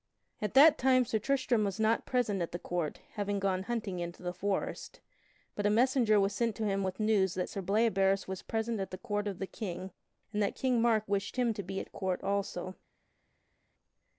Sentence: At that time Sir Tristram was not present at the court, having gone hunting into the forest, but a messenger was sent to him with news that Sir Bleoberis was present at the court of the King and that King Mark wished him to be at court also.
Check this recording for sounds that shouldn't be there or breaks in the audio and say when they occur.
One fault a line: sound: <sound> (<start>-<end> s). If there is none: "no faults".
no faults